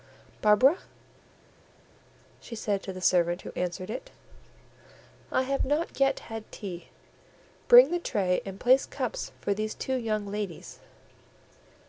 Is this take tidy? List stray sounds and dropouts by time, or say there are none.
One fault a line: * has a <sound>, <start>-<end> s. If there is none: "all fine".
all fine